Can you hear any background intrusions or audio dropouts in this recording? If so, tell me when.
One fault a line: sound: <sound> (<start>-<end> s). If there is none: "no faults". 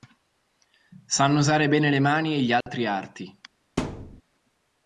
sound: dropout (2.6-2.7 s)
sound: thud (3.8-4.2 s)